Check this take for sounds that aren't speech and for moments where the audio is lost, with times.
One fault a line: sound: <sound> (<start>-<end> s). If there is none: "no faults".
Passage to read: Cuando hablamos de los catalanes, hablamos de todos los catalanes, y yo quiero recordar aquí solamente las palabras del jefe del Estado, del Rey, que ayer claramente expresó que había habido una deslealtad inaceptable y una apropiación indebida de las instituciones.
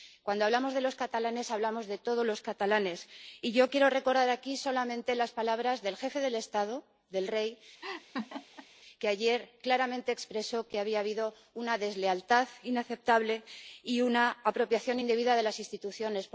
sound: laugh (7.8-8.7 s)